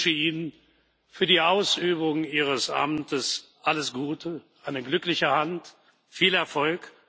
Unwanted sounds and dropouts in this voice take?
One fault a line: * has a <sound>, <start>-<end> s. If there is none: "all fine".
all fine